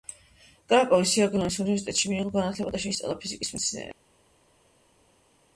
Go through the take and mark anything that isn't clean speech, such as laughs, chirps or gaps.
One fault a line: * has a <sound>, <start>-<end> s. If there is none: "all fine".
all fine